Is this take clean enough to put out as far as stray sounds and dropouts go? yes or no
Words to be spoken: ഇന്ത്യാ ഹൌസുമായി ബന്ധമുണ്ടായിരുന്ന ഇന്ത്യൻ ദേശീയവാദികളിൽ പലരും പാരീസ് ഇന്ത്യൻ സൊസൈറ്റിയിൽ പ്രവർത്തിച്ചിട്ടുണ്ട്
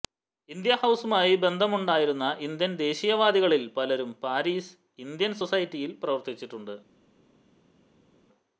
yes